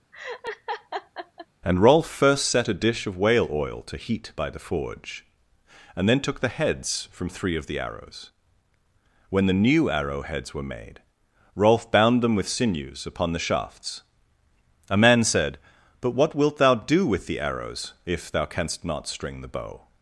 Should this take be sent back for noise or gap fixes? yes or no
yes